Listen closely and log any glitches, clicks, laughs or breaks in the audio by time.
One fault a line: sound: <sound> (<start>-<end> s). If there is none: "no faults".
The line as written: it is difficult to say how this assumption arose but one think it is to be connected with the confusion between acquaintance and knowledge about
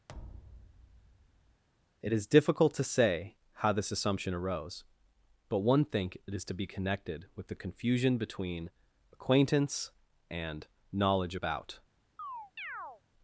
sound: thud (0.1-1.6 s)
sound: chirp (12.2-13.0 s)